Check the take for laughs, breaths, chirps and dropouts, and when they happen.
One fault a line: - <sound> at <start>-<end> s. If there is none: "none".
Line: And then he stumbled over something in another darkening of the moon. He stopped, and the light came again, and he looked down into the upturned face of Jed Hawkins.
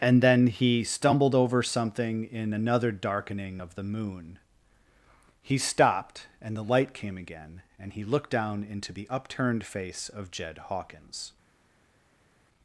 none